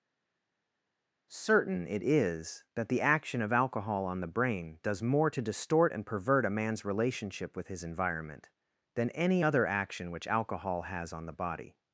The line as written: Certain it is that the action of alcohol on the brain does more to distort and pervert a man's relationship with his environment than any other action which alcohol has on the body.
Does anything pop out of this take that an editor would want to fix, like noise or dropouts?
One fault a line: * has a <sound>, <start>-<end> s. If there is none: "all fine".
all fine